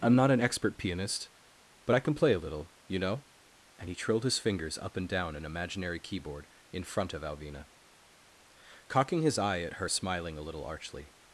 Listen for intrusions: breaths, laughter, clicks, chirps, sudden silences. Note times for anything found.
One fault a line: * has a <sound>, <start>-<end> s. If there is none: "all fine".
all fine